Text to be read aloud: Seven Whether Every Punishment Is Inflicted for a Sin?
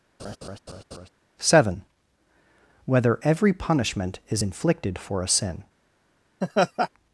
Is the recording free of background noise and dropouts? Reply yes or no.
no